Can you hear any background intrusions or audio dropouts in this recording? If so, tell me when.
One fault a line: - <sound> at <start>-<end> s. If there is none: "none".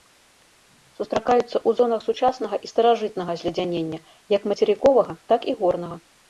none